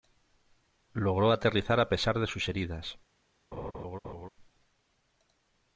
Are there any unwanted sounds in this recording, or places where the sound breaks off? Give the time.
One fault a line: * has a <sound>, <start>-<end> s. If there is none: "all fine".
* has a laugh, 3.5-4.3 s